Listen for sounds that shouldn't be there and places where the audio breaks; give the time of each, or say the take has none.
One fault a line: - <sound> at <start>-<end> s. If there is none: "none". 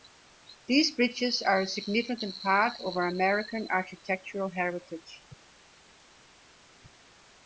none